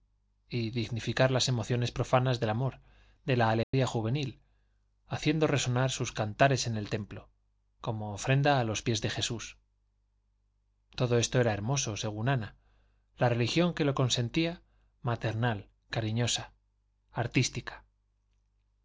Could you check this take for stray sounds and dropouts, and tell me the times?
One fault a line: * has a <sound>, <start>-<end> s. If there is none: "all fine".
* has a dropout, 3.6-3.7 s